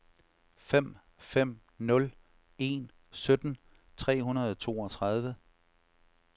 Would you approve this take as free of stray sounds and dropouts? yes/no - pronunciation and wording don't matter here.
yes